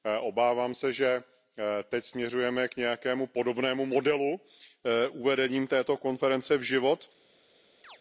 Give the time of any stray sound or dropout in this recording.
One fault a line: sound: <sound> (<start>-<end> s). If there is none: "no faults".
sound: chirp (7.8-8.0 s)